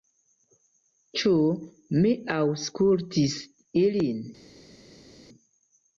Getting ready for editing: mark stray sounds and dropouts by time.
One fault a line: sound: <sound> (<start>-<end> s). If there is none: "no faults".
no faults